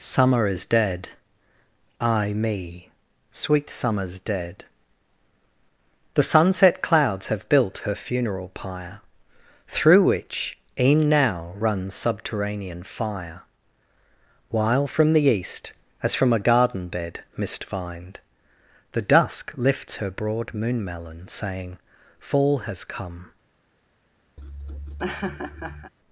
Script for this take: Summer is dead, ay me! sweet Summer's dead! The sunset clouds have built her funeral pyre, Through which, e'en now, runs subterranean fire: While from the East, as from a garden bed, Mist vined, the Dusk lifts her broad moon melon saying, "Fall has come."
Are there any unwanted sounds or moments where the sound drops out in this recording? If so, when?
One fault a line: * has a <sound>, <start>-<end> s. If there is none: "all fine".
* has a laugh, 24.4-25.9 s